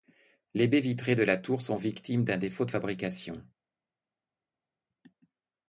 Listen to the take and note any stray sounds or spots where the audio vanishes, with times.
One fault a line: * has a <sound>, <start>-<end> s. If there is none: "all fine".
all fine